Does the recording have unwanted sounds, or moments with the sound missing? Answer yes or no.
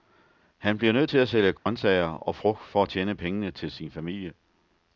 yes